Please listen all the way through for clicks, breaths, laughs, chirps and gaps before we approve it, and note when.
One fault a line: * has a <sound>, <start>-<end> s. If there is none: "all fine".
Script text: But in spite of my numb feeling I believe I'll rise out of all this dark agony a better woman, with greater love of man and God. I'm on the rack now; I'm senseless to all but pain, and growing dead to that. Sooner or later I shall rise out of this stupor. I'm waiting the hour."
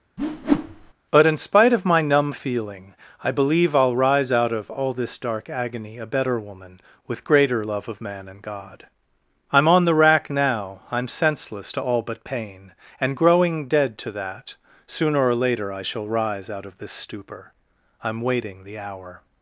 * has a whoosh, 0.2-0.9 s